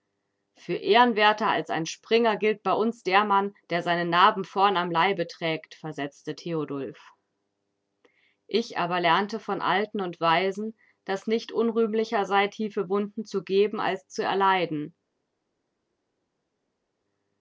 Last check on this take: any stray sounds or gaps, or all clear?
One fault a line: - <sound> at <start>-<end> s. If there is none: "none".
none